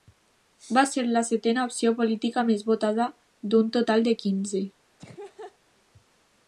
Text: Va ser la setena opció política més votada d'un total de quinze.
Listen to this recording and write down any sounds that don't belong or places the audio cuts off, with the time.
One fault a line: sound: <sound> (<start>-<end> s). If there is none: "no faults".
sound: laugh (5.0-5.6 s)